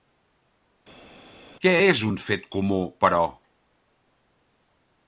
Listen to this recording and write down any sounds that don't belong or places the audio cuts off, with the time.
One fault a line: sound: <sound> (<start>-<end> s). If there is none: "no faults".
no faults